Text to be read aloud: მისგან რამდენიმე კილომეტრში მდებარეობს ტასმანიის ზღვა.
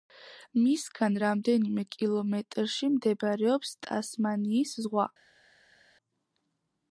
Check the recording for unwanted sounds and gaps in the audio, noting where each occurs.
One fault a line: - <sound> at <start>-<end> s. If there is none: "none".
none